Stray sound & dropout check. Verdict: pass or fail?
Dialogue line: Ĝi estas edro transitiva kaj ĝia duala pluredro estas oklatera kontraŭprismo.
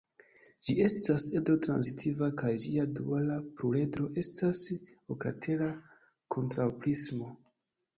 pass